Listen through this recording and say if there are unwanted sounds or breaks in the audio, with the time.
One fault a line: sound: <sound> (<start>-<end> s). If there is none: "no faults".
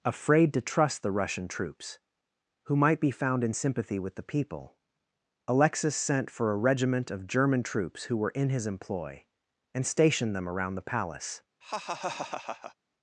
sound: laugh (11.6-12.8 s)